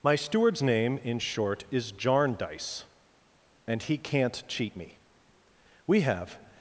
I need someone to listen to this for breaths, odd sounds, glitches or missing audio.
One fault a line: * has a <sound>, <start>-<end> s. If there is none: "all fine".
all fine